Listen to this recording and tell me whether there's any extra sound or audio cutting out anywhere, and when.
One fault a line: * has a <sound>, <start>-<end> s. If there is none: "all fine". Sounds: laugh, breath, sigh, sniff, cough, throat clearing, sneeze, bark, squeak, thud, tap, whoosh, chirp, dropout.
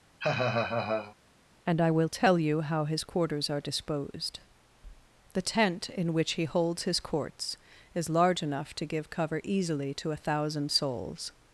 * has a laugh, 0.2-1.2 s